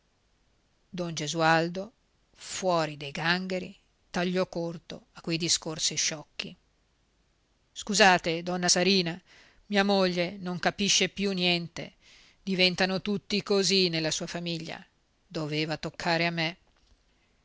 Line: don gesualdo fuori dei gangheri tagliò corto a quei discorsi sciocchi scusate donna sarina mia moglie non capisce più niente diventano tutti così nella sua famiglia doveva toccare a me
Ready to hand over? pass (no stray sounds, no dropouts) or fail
pass